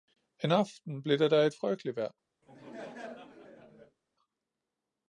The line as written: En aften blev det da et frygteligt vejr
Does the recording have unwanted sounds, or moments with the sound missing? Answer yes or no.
yes